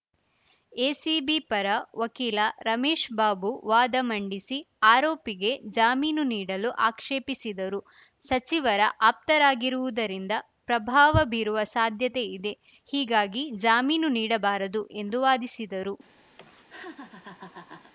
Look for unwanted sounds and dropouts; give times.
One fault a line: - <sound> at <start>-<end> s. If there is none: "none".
- laugh at 16.4-17.9 s